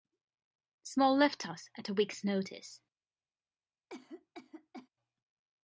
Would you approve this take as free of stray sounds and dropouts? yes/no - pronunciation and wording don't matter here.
no